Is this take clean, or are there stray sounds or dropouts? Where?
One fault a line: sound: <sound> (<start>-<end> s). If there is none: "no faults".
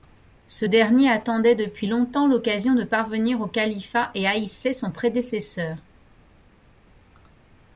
no faults